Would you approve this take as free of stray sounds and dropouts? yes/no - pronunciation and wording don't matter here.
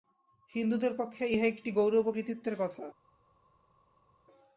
yes